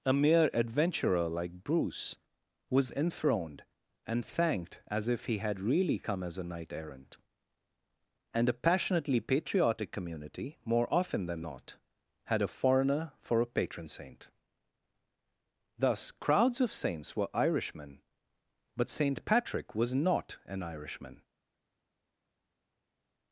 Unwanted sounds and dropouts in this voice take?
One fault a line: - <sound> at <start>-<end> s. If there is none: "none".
none